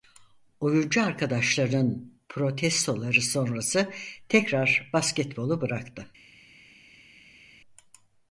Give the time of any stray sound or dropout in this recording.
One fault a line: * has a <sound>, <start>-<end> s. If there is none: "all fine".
all fine